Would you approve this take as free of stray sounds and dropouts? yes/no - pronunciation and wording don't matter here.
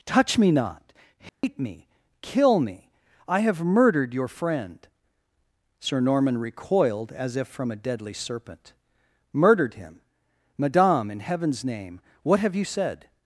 no